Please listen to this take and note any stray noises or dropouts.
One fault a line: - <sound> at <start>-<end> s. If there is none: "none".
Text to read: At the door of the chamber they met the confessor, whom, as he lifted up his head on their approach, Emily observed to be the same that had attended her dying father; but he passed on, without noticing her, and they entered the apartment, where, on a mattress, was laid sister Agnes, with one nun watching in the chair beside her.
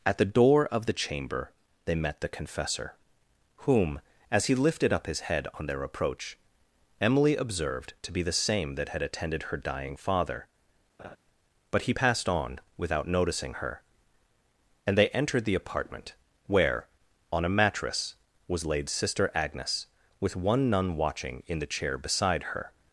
- laugh at 11.0-11.2 s